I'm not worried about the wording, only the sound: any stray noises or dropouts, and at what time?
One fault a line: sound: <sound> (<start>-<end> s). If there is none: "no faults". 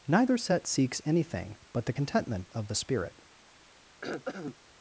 sound: throat clearing (4.0-4.6 s)